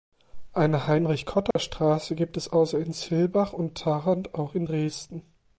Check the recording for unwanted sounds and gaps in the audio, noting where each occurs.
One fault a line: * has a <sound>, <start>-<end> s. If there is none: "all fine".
* has a dropout, 1.5-1.6 s